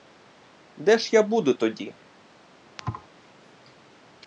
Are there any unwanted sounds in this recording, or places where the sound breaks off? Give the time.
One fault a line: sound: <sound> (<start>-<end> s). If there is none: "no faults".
sound: thud (2.8-3.1 s)